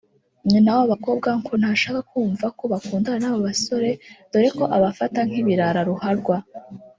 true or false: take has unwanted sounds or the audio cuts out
false